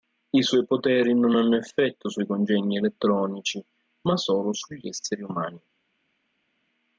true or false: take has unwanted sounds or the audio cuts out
false